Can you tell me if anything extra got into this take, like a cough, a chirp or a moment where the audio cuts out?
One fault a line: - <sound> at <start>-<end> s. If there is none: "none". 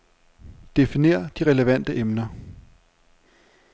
none